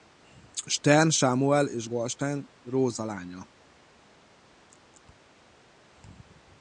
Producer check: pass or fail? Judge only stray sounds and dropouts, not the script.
pass